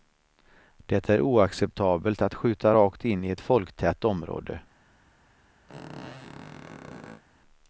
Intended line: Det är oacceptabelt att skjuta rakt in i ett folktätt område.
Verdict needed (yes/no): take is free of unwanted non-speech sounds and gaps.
no